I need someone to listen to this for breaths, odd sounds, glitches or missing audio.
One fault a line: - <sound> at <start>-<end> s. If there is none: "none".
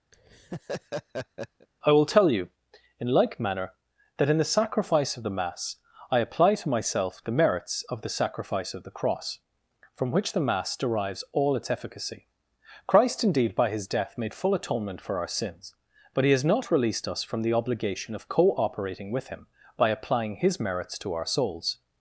- laugh at 0.1-1.7 s